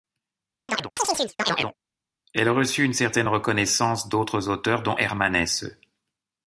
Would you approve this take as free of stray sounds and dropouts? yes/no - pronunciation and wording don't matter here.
no